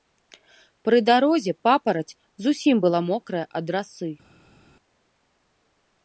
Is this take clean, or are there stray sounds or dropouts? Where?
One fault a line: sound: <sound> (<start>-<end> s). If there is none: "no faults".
no faults